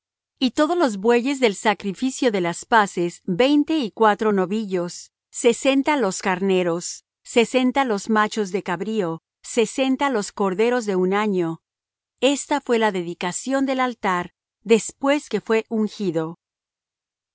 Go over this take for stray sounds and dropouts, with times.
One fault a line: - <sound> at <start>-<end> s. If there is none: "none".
none